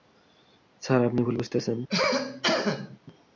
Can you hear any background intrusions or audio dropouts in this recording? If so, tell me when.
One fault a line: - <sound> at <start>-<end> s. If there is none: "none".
- cough at 1.9-3.0 s